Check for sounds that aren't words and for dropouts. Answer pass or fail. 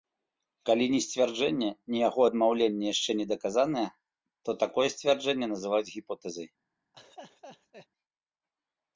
fail